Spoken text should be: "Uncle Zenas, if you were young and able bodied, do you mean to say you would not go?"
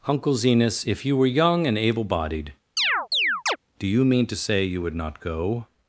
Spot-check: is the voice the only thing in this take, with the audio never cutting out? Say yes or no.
no